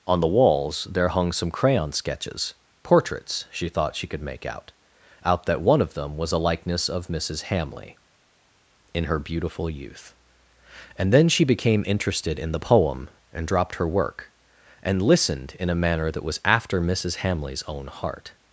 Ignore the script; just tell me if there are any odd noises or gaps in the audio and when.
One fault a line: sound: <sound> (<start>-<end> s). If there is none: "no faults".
no faults